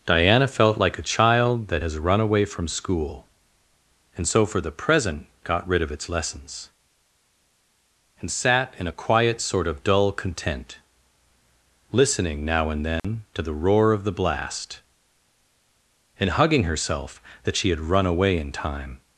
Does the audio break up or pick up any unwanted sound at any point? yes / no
yes